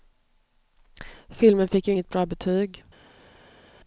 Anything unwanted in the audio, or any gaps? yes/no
no